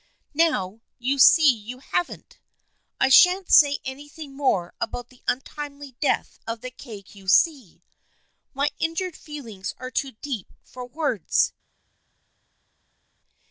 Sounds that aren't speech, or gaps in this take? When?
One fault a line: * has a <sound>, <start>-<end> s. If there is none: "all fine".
all fine